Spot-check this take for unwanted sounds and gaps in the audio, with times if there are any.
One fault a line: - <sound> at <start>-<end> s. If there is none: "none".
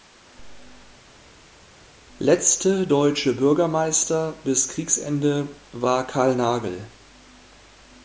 none